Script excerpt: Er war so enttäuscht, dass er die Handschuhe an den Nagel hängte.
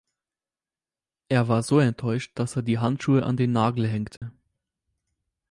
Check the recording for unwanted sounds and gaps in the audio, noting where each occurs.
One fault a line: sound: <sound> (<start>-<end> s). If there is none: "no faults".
sound: dropout (4.2-4.2 s)